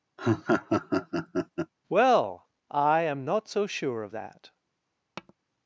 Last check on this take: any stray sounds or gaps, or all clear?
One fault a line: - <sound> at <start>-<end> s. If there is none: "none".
- laugh at 0.2-1.7 s
- tap at 5.2-5.3 s